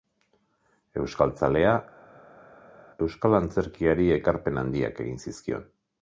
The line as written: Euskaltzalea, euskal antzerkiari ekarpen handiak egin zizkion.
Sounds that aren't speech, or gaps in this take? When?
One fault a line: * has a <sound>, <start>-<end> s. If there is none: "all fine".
all fine